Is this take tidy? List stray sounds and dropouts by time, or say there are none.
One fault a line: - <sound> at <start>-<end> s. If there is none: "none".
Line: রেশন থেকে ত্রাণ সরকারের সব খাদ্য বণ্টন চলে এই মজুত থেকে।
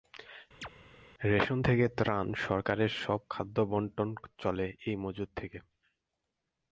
- chirp at 0.6-0.7 s